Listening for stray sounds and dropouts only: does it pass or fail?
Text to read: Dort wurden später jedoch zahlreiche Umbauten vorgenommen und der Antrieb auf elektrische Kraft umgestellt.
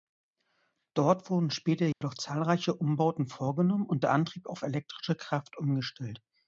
fail